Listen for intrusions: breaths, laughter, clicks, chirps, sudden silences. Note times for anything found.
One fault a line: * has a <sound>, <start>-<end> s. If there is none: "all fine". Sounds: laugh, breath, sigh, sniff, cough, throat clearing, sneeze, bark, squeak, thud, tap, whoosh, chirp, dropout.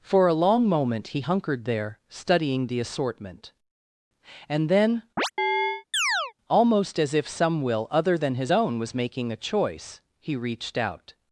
* has a chirp, 5.2-6.3 s